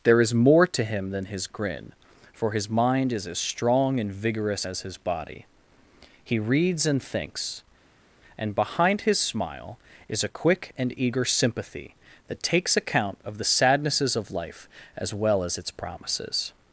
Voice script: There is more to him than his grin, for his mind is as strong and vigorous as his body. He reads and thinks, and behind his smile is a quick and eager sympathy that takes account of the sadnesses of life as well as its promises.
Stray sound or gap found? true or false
false